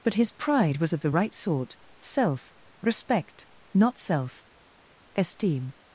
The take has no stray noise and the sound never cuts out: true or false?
true